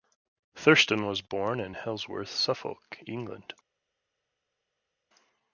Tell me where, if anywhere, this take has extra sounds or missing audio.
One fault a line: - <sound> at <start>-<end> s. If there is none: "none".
none